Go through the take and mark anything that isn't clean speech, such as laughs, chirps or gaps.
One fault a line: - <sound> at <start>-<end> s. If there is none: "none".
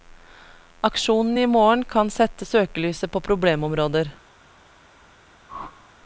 - whoosh at 5.5-5.9 s